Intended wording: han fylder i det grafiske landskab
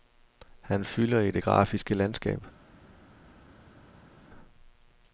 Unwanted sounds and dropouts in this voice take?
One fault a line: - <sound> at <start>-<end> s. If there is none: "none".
none